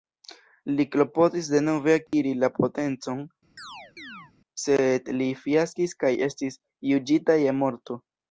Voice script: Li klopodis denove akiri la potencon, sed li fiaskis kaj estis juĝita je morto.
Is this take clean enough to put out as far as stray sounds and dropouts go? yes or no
no